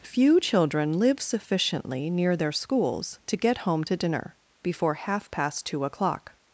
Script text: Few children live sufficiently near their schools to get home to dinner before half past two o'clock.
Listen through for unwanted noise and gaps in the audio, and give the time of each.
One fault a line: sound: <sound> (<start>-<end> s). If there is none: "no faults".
no faults